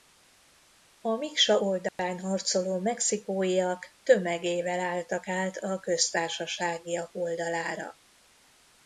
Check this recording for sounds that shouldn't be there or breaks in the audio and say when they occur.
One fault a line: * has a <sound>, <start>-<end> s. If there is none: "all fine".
* has a dropout, 1.9-2.0 s